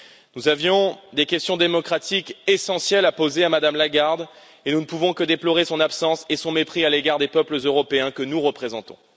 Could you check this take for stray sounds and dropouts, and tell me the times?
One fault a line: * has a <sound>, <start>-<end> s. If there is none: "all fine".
all fine